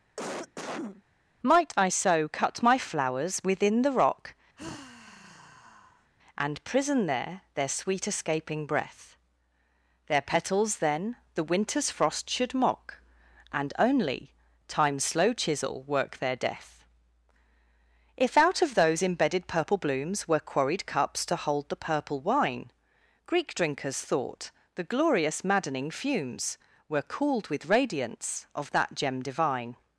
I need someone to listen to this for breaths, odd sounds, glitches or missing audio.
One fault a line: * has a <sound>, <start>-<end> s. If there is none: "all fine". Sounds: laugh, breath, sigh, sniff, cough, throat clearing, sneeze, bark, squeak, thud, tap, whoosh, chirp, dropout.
* has a cough, 0.2-1.0 s
* has a sigh, 4.6-6.1 s